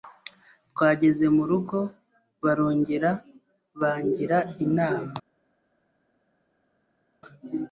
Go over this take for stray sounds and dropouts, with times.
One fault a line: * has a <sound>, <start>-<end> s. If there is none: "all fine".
all fine